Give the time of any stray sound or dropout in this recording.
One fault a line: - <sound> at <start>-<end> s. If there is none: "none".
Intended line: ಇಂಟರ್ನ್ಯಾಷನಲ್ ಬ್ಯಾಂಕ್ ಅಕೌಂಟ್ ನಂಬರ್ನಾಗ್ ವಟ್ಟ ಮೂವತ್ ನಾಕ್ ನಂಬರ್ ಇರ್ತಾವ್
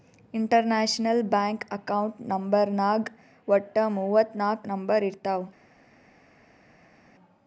none